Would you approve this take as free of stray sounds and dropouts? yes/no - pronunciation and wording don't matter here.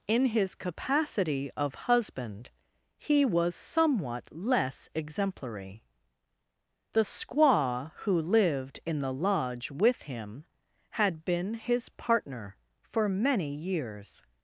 yes